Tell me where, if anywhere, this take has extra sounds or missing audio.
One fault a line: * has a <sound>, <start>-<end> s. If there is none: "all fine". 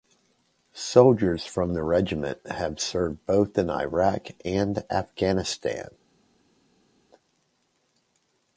all fine